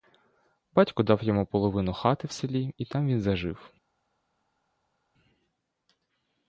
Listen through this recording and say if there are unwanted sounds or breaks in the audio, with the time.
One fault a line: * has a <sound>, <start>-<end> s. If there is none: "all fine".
all fine